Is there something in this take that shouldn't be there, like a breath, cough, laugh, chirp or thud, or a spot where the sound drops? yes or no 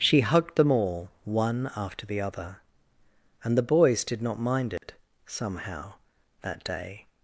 yes